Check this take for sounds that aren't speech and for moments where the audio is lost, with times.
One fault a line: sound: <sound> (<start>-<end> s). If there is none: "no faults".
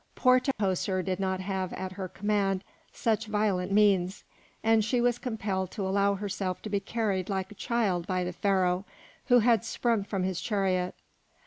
sound: dropout (0.5-0.6 s)